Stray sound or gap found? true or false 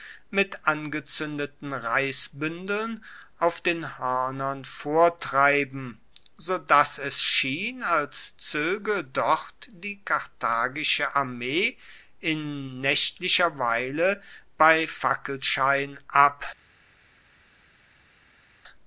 false